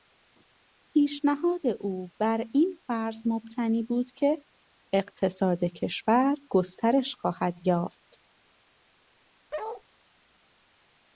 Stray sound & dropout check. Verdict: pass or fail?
fail